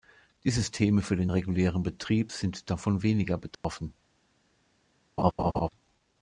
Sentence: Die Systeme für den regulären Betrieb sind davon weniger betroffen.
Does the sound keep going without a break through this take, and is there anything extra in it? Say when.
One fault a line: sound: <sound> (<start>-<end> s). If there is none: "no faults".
sound: dropout (3.5-3.6 s)
sound: laugh (5.2-5.7 s)